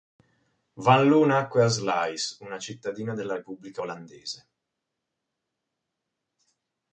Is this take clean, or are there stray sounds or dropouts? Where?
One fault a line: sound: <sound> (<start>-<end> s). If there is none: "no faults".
no faults